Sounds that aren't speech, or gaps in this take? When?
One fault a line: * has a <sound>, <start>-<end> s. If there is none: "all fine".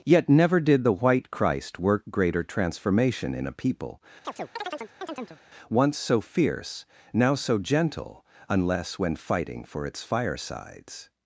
* has a chirp, 4.2-5.4 s